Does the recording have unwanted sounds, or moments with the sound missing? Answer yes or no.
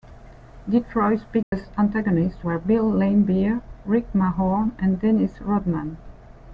yes